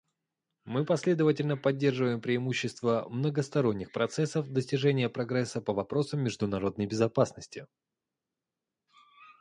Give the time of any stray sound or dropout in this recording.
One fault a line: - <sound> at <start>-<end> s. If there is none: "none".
none